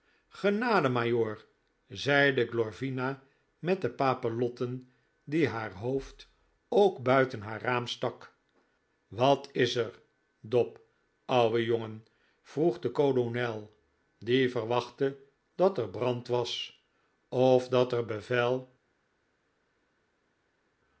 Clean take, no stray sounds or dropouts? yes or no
yes